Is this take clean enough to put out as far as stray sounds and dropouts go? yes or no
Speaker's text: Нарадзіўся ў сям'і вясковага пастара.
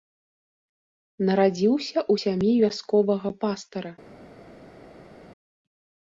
yes